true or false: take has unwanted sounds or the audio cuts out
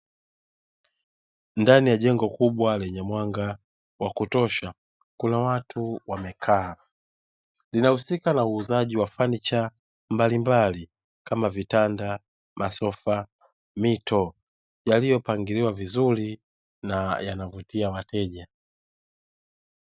false